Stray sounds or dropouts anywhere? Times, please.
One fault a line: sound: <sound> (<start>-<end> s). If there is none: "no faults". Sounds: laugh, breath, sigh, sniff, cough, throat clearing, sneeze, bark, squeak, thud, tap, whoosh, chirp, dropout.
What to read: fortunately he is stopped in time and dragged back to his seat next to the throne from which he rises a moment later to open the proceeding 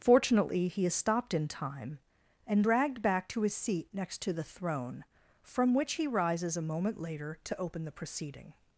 no faults